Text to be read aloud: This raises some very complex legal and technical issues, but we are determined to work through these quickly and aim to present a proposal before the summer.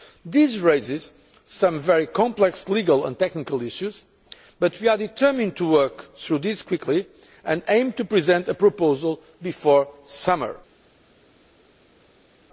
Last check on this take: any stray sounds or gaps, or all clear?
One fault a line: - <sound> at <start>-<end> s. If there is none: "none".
none